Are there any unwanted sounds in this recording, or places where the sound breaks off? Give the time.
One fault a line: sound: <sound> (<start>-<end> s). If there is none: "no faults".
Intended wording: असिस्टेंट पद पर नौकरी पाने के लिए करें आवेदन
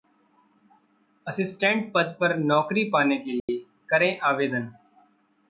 sound: dropout (3.4-3.5 s)